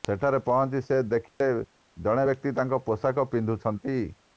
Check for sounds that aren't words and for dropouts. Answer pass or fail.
fail